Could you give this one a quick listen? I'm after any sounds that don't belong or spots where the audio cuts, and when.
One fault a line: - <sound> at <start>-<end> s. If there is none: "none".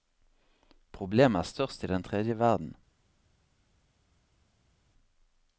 none